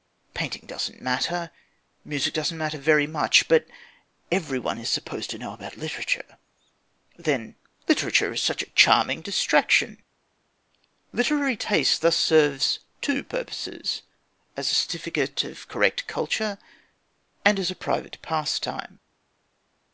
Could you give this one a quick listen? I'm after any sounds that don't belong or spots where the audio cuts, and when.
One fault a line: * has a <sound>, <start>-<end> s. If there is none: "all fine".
all fine